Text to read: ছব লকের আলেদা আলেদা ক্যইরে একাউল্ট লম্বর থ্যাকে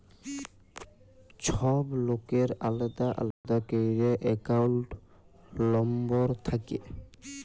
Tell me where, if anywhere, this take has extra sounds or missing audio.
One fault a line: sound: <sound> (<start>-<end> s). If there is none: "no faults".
sound: dropout (3.3-3.4 s)